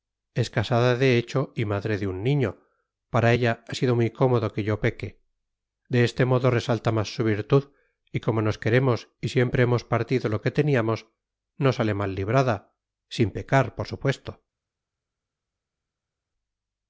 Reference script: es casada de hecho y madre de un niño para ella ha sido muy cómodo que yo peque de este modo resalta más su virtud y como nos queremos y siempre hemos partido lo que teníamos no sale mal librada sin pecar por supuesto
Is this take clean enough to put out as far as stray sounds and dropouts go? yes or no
yes